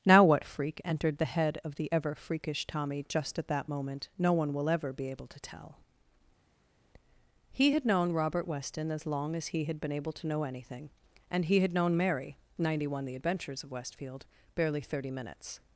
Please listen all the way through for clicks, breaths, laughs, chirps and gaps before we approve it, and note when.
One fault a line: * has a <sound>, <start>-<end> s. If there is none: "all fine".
all fine